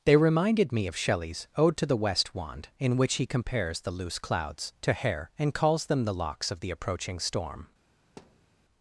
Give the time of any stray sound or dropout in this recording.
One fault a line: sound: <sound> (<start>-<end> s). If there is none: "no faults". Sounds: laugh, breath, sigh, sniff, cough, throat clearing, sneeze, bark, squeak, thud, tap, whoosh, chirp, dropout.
sound: thud (8.2-8.5 s)